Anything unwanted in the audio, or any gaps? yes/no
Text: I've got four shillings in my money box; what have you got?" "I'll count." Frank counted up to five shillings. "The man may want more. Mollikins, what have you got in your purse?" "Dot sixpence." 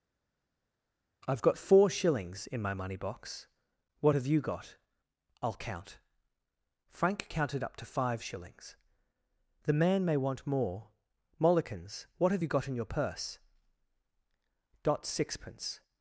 no